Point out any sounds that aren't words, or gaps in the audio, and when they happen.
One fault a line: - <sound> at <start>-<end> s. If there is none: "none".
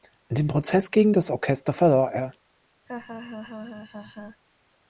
- laugh at 2.9-4.4 s